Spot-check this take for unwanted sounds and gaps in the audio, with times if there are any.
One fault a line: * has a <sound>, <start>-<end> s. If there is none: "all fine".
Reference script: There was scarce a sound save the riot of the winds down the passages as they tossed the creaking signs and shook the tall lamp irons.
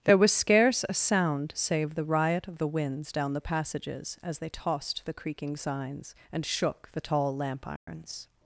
* has a dropout, 7.8-7.9 s